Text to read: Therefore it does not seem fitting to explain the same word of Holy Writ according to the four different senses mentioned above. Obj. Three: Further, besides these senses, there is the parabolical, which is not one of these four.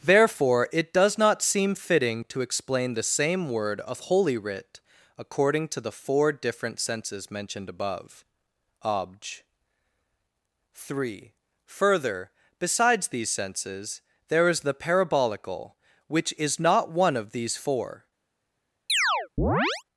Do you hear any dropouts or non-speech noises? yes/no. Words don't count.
yes